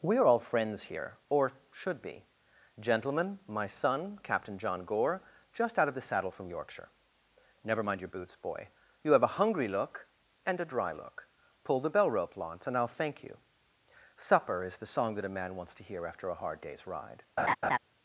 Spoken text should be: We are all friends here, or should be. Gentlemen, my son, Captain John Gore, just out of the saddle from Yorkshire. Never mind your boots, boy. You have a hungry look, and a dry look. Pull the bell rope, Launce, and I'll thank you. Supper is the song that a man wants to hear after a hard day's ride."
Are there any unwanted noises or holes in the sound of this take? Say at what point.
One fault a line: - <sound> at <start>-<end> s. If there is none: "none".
- laugh at 17.4-17.8 s